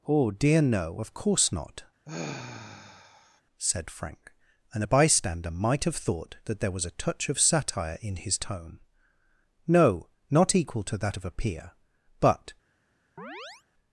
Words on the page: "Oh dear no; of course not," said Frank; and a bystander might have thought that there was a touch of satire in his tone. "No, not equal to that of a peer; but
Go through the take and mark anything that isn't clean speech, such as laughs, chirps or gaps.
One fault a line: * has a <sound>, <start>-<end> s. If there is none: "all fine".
* has a sigh, 2.1-3.4 s
* has a chirp, 13.2-13.6 s